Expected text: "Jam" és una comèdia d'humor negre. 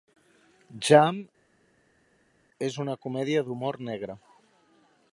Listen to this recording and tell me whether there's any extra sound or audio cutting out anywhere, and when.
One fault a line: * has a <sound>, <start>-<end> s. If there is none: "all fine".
all fine